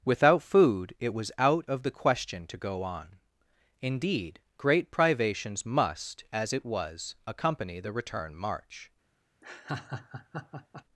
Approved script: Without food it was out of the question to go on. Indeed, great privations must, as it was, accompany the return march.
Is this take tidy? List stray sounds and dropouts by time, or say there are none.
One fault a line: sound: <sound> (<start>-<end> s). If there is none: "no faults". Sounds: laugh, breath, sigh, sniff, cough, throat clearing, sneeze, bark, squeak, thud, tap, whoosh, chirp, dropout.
sound: laugh (9.4-10.8 s)